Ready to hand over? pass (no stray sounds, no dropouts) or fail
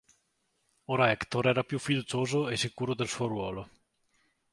pass